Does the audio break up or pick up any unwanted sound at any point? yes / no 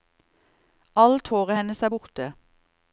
no